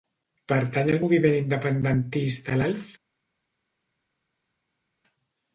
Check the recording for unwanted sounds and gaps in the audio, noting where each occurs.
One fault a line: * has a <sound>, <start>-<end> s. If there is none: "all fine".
all fine